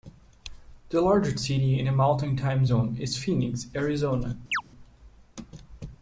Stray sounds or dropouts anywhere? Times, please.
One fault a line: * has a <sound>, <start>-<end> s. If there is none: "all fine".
* has a chirp, 4.5-4.6 s